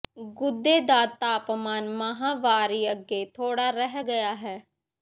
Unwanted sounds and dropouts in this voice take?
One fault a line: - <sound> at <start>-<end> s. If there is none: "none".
none